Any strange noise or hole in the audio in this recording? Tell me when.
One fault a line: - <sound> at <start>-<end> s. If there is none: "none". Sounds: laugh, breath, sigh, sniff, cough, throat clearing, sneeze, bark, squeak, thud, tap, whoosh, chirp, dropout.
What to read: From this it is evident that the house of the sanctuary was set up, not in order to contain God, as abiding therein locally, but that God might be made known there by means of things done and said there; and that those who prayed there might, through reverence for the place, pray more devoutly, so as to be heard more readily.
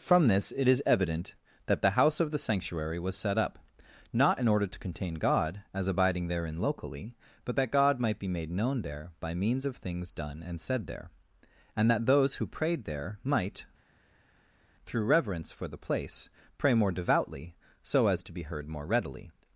none